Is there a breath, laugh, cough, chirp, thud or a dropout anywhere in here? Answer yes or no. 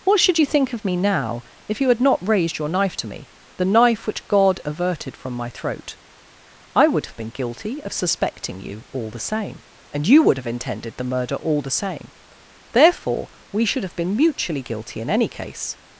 no